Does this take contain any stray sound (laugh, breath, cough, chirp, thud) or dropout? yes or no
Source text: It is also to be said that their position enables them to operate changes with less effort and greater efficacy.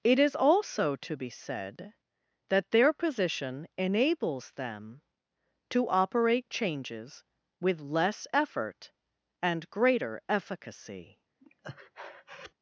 yes